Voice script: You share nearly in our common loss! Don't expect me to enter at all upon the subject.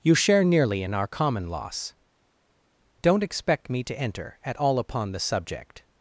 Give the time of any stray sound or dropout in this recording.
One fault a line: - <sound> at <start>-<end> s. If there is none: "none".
none